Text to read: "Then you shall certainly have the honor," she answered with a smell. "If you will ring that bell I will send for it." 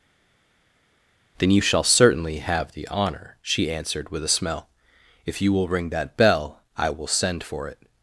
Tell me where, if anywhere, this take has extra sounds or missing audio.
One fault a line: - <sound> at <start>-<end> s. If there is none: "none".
none